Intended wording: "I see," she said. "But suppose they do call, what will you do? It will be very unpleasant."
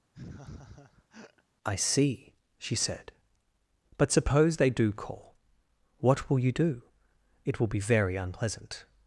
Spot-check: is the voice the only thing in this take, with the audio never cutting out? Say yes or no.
no